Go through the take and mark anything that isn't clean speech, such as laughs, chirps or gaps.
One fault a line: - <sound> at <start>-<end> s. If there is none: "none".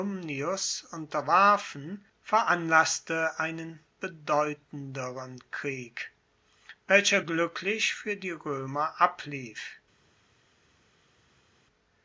none